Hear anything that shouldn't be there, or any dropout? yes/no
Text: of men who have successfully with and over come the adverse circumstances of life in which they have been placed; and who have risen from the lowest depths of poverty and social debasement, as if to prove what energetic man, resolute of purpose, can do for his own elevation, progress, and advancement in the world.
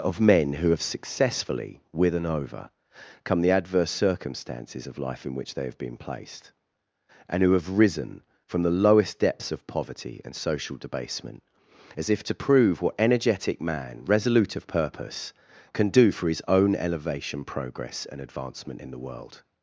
no